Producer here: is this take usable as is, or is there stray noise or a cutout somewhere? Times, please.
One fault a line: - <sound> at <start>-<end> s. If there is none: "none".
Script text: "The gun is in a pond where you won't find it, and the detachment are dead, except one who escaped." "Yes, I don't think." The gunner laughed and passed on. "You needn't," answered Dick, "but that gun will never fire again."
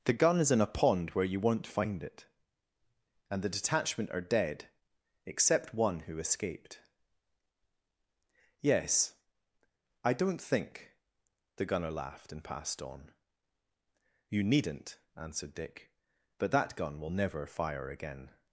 none